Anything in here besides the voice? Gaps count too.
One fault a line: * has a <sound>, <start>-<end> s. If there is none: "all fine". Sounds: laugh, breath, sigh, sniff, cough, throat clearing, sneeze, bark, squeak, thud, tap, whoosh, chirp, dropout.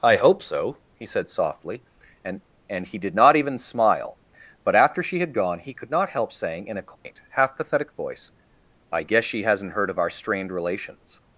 * has a dropout, 7.0-7.1 s